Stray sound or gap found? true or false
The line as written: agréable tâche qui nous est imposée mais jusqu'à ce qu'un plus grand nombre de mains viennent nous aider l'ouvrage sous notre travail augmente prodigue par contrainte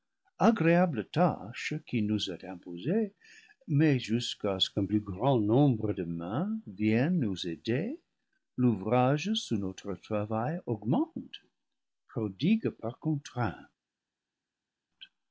false